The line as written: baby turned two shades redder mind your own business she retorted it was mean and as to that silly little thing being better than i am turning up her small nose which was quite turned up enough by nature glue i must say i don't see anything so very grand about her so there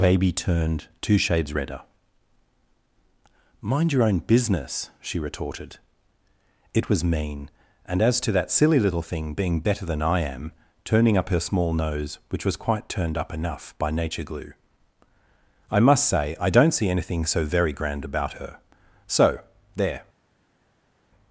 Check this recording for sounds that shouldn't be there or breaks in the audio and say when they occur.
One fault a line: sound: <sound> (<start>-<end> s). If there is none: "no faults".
no faults